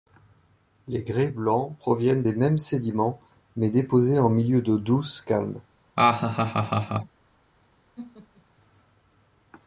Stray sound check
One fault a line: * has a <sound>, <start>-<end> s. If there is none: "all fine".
* has a laugh, 6.0-7.2 s
* has a laugh, 8.0-8.4 s